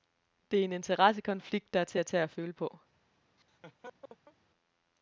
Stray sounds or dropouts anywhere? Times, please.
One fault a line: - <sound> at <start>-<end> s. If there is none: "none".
- laugh at 3.4-4.4 s